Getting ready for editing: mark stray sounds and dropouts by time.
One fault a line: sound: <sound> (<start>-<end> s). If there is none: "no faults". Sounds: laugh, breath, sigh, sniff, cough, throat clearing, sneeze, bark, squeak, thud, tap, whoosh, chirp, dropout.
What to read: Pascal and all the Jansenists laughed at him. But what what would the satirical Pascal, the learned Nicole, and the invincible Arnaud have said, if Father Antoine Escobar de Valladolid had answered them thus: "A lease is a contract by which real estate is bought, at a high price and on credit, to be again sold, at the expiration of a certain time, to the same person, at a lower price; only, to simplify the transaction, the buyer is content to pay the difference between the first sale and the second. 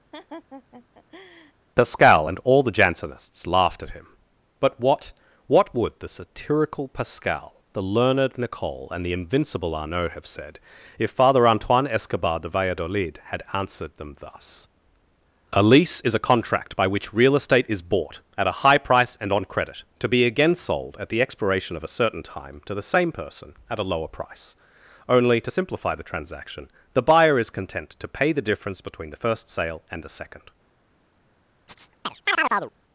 sound: laugh (0.1-1.5 s)
sound: chirp (31.7-32.7 s)